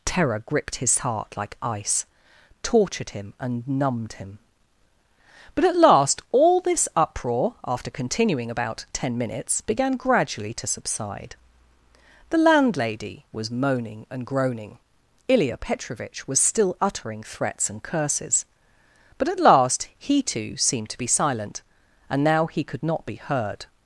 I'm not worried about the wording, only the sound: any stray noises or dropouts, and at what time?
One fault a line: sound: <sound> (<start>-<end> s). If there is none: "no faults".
no faults